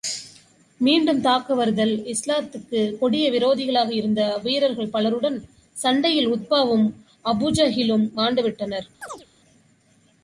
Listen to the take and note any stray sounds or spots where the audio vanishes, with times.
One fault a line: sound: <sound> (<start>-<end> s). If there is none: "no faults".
sound: chirp (9.0-9.3 s)